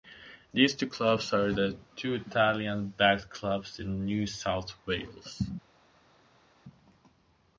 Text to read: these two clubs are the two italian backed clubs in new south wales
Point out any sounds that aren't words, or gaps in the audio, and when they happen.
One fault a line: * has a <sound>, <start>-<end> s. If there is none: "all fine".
all fine